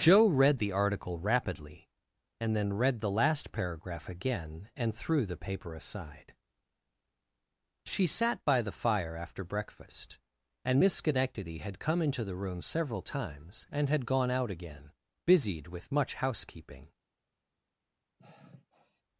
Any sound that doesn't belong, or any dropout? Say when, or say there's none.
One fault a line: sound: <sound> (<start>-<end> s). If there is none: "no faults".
sound: sigh (18.2-19.0 s)